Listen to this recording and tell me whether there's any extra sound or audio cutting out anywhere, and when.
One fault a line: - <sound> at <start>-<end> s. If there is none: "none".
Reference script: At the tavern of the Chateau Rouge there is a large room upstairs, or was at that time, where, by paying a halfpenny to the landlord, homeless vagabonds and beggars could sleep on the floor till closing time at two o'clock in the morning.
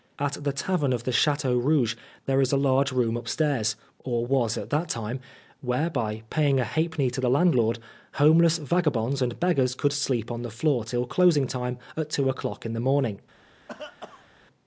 - cough at 13.7-14.3 s